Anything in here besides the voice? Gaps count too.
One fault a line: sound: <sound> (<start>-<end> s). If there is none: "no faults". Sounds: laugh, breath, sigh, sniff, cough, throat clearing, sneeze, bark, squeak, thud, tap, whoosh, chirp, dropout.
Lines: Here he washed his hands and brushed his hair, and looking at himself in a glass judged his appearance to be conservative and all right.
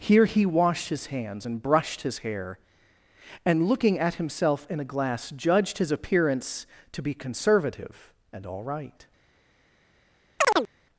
sound: chirp (10.4-10.7 s)